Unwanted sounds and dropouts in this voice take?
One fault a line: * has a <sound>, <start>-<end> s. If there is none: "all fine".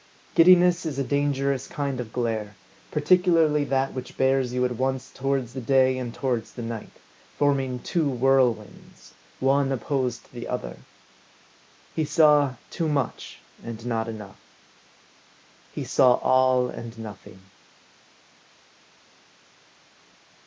all fine